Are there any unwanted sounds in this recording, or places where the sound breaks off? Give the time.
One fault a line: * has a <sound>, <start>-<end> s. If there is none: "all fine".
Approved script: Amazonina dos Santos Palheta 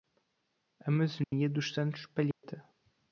* has a dropout, 1.2-1.3 s
* has a dropout, 2.3-2.4 s